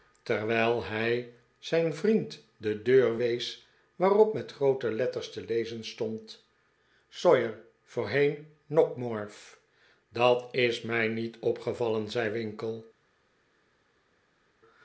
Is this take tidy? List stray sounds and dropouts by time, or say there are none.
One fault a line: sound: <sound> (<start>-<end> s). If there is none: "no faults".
no faults